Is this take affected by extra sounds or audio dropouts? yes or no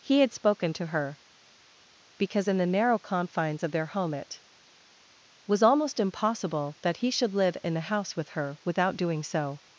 no